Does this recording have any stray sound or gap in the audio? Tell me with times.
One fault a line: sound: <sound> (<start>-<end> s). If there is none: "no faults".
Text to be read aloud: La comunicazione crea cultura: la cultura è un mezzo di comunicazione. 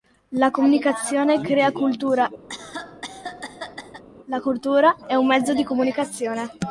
sound: cough (2.5-4.0 s)